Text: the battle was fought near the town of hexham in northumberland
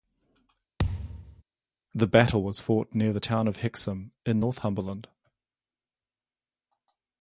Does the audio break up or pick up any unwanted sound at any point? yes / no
yes